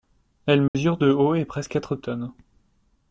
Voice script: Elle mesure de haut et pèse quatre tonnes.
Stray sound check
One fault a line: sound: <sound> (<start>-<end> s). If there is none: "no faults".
sound: dropout (0.7-0.7 s)